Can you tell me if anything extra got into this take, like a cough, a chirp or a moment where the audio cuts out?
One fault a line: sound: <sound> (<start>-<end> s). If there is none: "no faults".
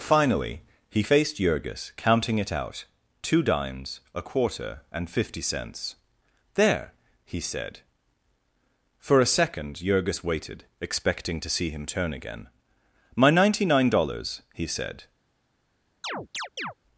sound: chirp (16.0-16.7 s)